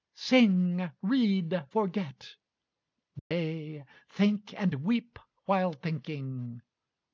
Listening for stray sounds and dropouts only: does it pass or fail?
fail